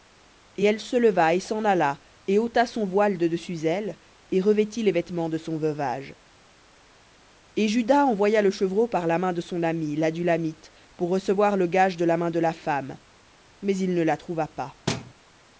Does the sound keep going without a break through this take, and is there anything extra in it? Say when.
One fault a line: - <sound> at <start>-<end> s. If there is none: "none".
- thud at 14.9-15.1 s